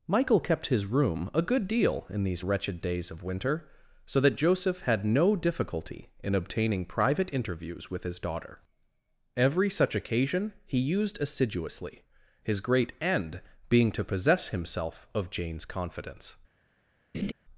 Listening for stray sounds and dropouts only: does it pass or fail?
fail